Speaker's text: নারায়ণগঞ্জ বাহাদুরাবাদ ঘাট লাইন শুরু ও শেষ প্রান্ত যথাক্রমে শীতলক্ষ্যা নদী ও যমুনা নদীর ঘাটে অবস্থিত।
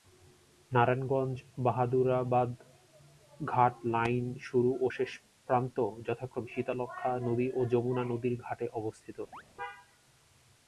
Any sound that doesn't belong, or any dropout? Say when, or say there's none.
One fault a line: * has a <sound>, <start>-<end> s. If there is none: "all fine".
* has a chirp, 9.3-9.4 s